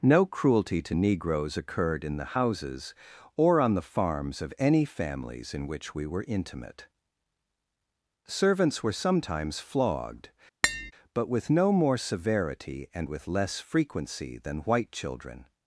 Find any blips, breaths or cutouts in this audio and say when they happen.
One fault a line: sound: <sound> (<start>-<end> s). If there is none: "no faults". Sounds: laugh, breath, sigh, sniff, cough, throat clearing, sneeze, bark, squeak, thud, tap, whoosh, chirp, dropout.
sound: tap (10.6-10.9 s)